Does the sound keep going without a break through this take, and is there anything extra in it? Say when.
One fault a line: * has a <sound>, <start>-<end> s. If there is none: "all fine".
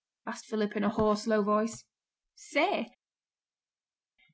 all fine